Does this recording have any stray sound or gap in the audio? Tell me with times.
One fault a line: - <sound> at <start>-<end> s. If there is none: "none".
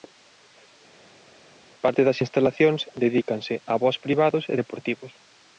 none